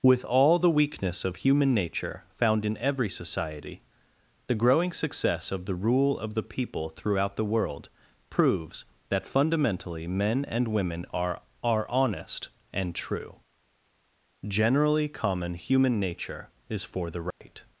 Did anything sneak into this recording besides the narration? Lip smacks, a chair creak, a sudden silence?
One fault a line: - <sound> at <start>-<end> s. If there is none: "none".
- dropout at 17.3-17.4 s